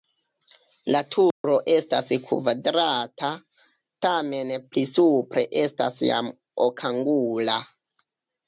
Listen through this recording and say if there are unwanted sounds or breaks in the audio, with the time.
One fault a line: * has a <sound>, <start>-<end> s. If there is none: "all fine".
* has a dropout, 1.3-1.4 s